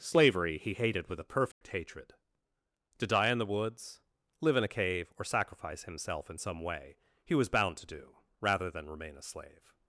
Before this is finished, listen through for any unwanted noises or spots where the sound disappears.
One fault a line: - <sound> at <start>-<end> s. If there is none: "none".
- dropout at 1.5-1.6 s